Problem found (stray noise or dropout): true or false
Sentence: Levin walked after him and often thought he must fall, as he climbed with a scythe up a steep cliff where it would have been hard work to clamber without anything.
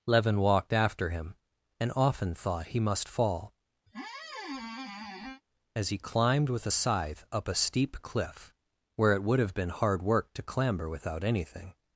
true